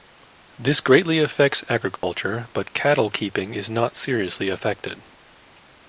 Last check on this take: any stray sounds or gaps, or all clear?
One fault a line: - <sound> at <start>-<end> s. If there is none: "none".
- dropout at 2.0-2.0 s